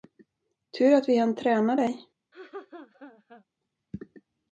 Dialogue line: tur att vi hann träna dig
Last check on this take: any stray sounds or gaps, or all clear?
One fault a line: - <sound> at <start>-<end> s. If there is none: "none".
- laugh at 2.3-3.4 s